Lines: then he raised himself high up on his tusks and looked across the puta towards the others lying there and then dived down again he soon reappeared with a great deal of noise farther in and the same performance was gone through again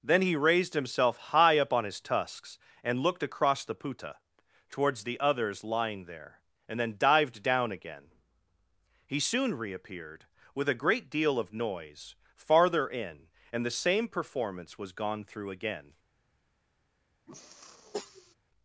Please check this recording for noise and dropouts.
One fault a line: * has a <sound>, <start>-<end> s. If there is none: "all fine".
* has a sniff, 17.3-18.3 s